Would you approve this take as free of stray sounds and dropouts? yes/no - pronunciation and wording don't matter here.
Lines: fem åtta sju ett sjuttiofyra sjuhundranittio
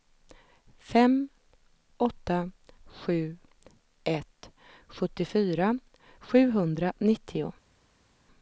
yes